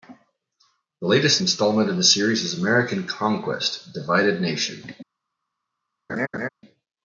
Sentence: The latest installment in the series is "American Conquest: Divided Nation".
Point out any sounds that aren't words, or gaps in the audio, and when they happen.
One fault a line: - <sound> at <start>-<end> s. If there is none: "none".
- laugh at 6.1-6.5 s